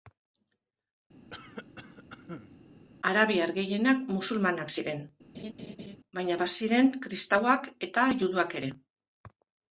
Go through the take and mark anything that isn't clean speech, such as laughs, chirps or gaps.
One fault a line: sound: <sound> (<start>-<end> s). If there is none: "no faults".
sound: cough (1.3-2.6 s)
sound: laugh (5.3-6.0 s)